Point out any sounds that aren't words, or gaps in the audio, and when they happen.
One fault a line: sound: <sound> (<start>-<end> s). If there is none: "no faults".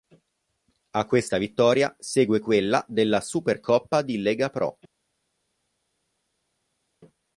no faults